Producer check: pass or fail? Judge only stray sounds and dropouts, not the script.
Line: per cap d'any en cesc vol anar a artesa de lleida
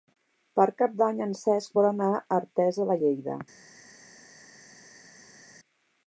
pass